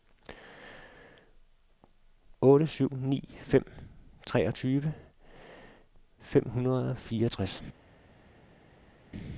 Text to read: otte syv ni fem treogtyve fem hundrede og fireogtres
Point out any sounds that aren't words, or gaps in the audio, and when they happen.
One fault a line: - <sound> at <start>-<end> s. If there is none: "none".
none